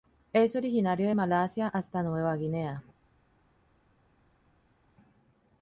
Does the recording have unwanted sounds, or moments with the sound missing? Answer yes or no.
no